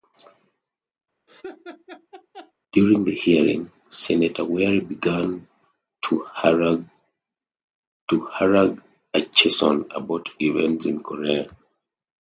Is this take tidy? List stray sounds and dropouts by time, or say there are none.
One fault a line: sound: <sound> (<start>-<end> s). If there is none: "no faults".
sound: laugh (1.3-2.5 s)